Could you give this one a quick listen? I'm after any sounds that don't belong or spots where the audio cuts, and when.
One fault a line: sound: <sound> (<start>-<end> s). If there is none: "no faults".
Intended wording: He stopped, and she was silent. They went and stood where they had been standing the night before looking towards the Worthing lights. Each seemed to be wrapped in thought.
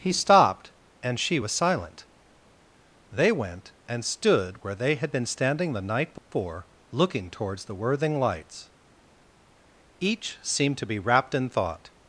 sound: dropout (6.2-6.3 s)